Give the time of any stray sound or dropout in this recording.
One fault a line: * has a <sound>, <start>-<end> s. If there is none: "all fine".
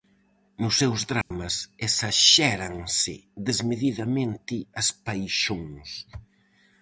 * has a dropout, 1.2-1.3 s